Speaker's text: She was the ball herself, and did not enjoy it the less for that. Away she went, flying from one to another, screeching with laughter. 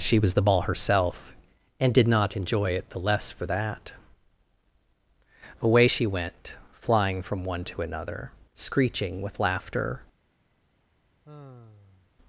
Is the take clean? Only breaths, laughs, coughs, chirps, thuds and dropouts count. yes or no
no